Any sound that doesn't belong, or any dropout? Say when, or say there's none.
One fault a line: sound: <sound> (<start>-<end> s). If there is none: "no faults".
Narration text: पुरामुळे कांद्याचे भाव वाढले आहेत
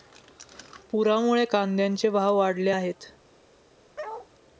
sound: bark (4.0-4.3 s)